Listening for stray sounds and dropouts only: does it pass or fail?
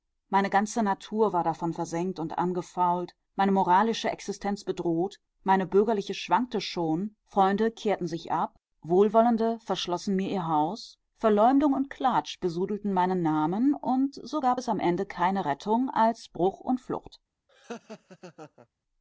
fail